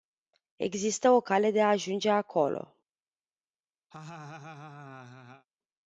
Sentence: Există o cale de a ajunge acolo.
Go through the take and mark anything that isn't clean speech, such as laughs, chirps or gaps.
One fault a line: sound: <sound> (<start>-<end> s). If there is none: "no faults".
sound: laugh (3.9-5.5 s)